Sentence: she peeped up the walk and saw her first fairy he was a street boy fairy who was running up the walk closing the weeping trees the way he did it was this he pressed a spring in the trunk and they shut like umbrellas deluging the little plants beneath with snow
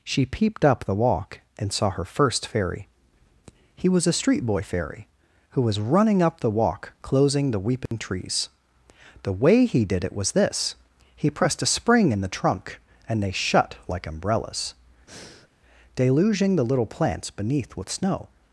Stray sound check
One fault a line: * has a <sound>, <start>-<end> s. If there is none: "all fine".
* has a dropout, 7.9-7.9 s
* has a breath, 15.1-15.5 s